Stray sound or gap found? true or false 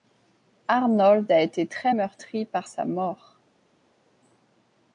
false